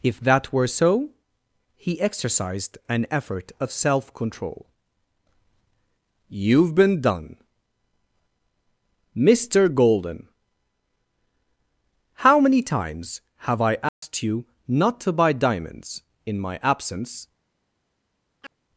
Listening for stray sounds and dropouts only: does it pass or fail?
fail